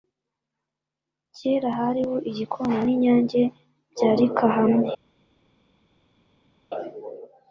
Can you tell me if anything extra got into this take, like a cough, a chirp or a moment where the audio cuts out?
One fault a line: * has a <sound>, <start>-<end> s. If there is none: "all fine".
all fine